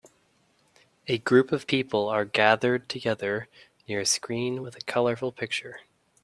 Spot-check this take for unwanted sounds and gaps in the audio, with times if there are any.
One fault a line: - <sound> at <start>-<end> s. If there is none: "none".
none